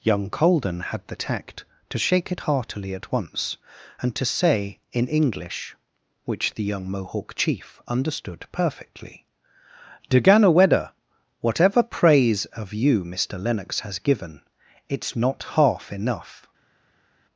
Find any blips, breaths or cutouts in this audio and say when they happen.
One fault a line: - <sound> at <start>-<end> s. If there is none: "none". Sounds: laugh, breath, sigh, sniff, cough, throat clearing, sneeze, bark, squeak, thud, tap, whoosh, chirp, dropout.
none